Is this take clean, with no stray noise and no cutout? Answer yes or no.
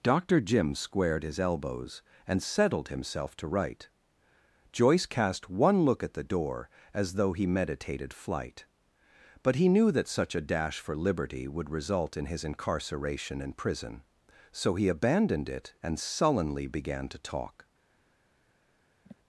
no